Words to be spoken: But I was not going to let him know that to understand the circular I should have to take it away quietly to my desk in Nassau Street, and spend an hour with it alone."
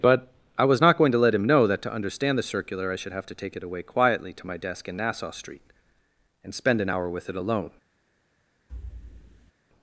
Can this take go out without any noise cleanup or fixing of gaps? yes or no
no